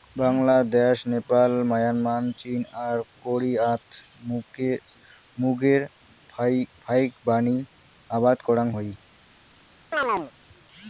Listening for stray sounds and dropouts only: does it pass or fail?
fail